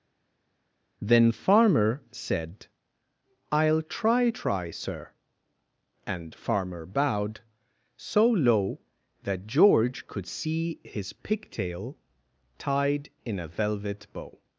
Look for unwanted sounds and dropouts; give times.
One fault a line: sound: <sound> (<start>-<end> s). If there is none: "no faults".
no faults